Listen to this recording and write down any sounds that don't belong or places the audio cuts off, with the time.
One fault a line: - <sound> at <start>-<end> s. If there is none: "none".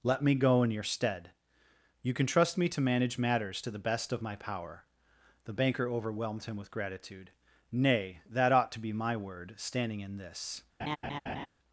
- laugh at 10.8-11.5 s